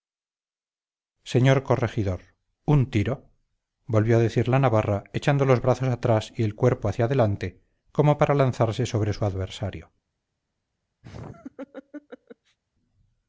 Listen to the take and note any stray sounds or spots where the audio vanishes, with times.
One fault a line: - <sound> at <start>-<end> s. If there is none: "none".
- laugh at 11.0-12.6 s